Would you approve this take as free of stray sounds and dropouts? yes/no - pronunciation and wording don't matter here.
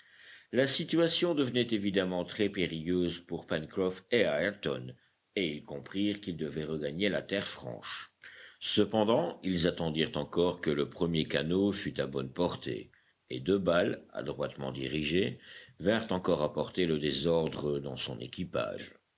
yes